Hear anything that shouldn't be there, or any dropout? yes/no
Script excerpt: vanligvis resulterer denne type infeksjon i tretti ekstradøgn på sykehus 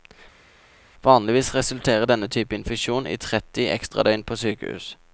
no